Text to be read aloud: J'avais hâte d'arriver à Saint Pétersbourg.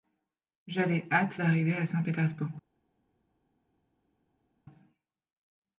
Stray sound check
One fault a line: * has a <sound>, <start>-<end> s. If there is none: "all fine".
all fine